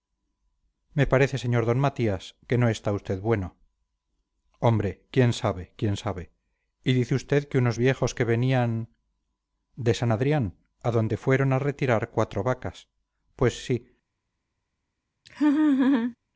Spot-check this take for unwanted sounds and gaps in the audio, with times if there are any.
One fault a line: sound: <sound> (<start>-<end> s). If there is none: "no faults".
sound: laugh (15.3-16.2 s)